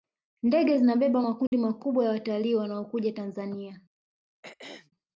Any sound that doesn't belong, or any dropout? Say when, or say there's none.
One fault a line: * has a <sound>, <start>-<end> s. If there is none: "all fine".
* has a dropout, 1.5-1.5 s
* has a throat clearing, 4.4-4.9 s